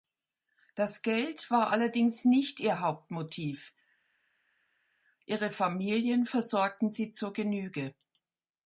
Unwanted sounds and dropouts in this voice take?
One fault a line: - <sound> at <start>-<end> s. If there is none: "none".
none